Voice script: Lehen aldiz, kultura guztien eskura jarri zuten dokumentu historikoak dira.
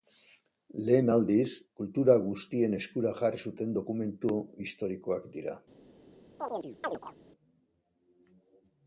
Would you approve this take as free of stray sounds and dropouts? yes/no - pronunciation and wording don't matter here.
no